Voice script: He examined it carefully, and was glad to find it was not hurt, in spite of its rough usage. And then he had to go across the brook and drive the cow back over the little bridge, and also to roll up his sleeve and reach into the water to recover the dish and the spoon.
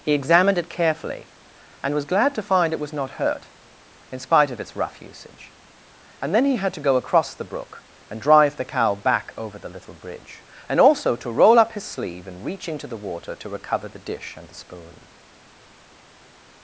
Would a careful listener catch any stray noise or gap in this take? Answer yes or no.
no